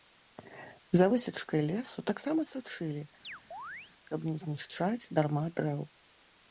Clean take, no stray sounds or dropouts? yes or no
no